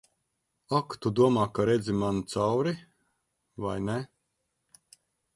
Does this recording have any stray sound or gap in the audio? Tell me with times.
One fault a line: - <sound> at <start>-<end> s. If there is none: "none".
none